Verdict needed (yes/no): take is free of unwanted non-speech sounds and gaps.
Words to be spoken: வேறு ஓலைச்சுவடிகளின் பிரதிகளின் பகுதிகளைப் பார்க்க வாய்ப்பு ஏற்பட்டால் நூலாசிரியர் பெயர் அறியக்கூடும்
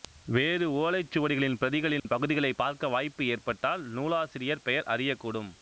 no